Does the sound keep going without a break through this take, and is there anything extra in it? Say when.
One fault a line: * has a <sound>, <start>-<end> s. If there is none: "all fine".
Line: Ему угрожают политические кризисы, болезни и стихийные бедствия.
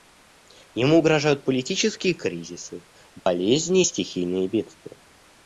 * has a dropout, 3.2-3.3 s